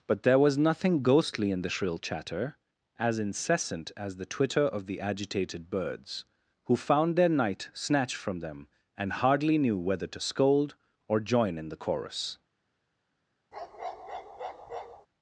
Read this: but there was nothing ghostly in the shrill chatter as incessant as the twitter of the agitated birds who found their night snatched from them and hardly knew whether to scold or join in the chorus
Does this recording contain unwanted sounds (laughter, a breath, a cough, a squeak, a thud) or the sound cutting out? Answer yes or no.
yes